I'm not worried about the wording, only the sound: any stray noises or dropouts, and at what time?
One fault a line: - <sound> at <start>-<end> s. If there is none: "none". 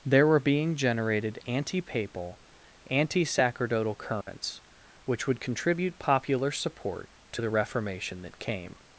- dropout at 4.2-4.3 s